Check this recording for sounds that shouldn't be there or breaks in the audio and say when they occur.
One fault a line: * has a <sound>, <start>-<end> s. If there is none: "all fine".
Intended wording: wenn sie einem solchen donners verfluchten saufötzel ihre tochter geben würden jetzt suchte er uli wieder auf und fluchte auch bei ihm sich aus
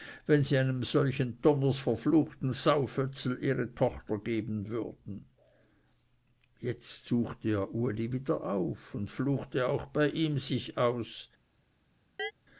* has a chirp, 12.2-12.3 s